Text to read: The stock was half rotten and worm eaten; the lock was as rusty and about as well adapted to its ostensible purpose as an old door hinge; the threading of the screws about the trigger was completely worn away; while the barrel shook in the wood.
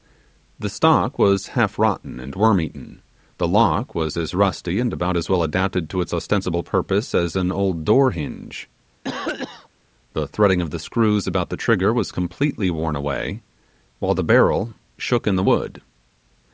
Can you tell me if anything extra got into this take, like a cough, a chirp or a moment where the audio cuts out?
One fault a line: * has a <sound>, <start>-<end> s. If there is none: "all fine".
* has a cough, 9.0-9.7 s